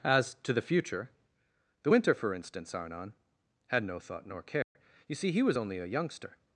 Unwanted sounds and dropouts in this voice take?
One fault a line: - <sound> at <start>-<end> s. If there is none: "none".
- dropout at 4.6-4.8 s